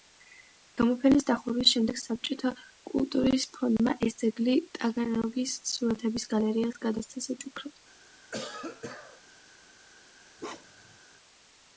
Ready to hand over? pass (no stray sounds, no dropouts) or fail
fail